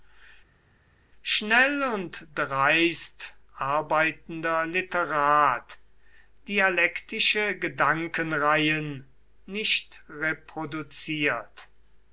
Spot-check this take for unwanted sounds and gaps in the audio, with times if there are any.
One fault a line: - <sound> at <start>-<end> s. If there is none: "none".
none